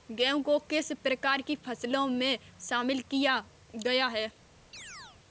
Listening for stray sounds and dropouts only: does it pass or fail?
fail